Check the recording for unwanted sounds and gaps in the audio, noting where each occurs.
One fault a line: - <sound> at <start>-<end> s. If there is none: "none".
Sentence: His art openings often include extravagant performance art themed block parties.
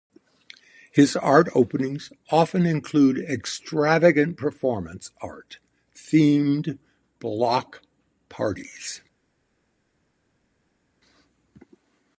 none